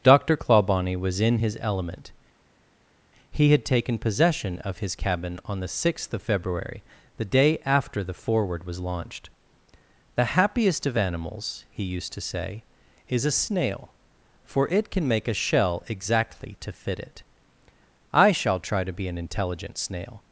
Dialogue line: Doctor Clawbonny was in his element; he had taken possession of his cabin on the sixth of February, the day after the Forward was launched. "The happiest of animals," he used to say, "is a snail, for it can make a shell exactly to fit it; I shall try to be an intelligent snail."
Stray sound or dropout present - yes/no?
no